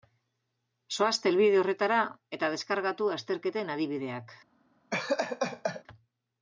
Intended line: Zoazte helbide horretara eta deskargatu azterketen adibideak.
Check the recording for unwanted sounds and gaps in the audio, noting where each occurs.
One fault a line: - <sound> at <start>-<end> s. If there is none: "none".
- laugh at 4.9-5.8 s